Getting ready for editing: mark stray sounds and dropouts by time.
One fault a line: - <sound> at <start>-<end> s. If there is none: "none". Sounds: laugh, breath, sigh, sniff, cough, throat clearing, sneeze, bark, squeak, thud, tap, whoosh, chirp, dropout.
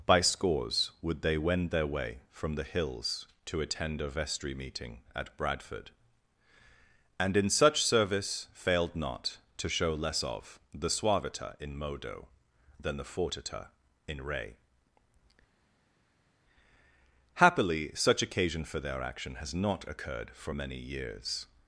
none